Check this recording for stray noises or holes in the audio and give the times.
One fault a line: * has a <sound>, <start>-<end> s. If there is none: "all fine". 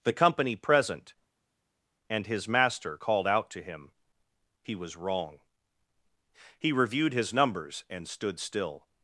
all fine